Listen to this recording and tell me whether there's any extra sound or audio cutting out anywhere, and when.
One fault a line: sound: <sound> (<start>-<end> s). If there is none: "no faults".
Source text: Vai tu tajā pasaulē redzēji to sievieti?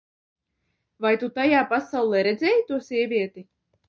no faults